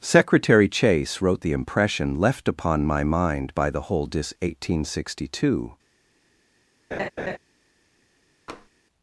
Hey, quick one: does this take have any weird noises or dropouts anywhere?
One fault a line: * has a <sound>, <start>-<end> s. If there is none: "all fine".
* has a laugh, 6.9-7.4 s
* has a tap, 8.5-8.7 s